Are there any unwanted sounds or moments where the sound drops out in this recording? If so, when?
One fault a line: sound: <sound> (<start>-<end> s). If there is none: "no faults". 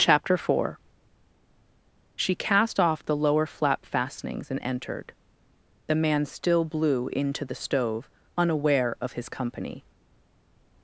no faults